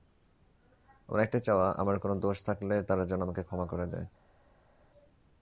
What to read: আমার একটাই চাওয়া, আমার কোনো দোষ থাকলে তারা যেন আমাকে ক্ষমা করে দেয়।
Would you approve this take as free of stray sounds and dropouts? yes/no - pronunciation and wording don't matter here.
yes